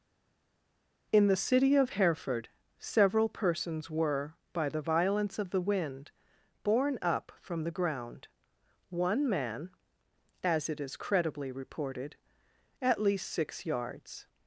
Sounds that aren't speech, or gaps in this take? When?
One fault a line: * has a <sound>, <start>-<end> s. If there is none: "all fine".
all fine